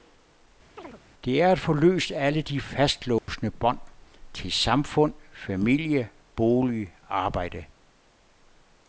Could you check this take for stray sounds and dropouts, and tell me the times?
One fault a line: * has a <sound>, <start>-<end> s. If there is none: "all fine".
* has a chirp, 0.8-1.0 s
* has a dropout, 3.2-3.3 s